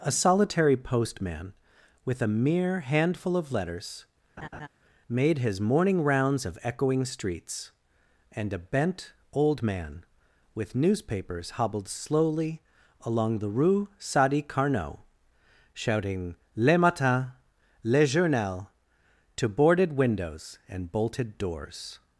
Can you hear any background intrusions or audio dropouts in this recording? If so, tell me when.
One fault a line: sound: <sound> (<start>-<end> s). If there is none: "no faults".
sound: laugh (4.4-4.7 s)